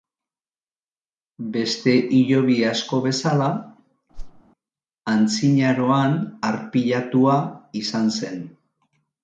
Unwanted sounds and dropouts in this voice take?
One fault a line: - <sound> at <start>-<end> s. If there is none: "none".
- whoosh at 4.1-4.4 s